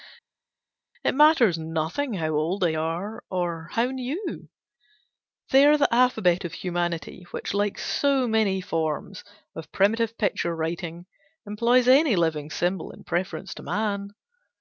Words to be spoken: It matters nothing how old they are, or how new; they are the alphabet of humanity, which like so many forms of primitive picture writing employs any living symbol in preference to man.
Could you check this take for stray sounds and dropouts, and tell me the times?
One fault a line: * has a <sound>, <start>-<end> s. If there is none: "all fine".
all fine